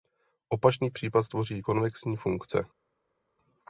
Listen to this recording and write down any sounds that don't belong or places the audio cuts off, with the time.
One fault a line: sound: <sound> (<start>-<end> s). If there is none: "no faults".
no faults